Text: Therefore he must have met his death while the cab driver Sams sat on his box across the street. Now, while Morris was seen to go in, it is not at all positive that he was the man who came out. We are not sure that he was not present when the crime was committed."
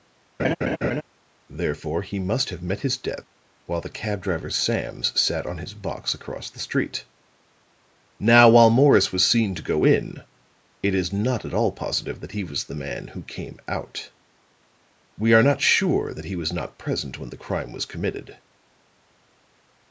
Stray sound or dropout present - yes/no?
yes